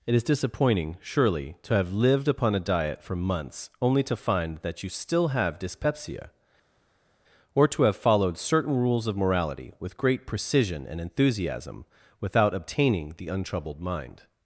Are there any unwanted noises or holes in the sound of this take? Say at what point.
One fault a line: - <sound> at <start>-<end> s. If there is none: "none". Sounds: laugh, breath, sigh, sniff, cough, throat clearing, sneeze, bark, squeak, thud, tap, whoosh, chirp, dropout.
none